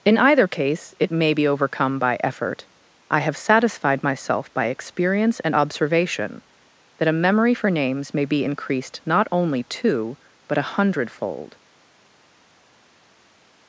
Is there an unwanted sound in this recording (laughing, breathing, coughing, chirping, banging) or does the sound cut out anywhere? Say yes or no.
no